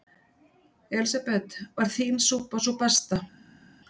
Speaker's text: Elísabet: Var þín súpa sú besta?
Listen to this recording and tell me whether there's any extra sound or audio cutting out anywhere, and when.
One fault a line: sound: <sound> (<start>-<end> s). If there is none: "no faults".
no faults